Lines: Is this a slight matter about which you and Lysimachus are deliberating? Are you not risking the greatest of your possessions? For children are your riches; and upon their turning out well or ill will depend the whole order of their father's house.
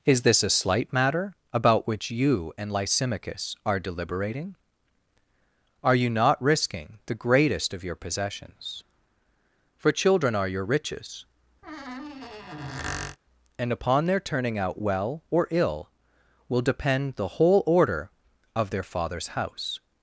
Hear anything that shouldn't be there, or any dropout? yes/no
yes